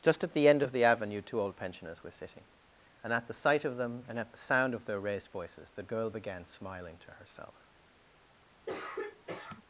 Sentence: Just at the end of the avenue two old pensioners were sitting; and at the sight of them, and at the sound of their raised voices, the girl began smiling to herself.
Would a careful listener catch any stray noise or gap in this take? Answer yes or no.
yes